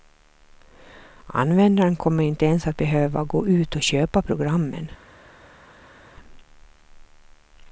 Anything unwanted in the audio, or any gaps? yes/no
no